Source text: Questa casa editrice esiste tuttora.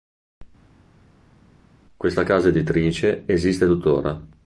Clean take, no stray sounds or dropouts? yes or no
yes